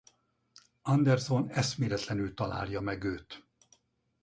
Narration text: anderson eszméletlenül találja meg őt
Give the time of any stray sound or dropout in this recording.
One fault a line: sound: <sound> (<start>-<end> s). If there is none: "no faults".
no faults